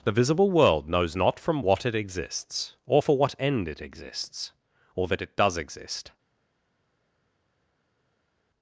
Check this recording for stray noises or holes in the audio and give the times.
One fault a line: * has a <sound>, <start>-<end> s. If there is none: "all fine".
all fine